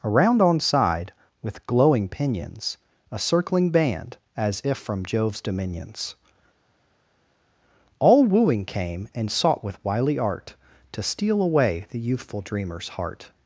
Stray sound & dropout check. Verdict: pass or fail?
pass